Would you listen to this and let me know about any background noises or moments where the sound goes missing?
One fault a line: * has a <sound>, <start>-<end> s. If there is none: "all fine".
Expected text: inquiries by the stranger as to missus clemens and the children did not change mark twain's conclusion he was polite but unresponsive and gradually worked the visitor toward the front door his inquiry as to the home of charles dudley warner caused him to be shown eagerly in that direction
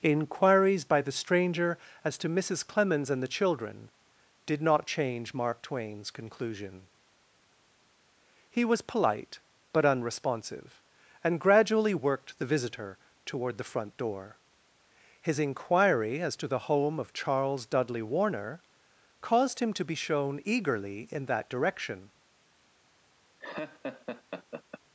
* has a laugh, 23.4-24.8 s